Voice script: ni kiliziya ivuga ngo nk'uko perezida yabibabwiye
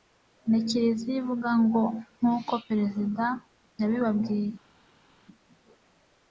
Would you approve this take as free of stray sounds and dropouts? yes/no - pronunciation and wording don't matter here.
yes